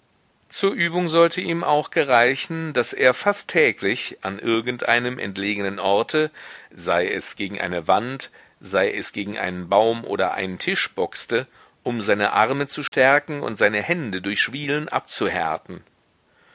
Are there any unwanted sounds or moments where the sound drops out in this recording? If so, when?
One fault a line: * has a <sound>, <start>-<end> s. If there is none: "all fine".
* has a dropout, 12.9-12.9 s